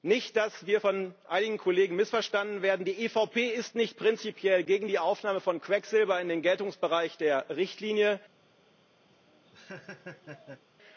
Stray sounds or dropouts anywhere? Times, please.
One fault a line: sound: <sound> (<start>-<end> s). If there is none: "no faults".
sound: laugh (9.1-10.6 s)